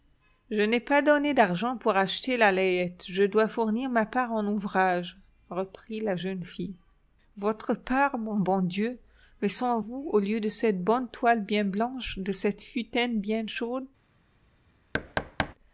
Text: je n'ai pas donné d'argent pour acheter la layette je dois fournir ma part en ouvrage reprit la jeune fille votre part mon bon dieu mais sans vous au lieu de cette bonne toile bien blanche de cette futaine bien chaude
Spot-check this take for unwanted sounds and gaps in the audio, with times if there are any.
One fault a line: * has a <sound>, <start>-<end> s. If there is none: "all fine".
* has a thud, 14.9-15.5 s